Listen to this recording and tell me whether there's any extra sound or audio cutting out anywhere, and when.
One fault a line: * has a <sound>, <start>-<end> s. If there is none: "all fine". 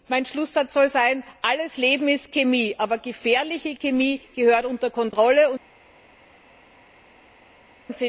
all fine